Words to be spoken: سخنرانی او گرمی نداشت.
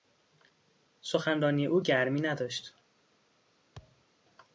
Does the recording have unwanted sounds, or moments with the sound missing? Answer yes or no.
yes